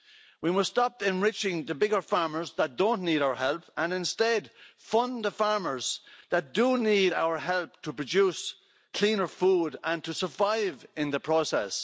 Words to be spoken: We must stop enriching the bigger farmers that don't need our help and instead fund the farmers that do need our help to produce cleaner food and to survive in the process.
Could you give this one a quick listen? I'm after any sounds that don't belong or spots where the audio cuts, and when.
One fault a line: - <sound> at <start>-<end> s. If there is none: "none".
none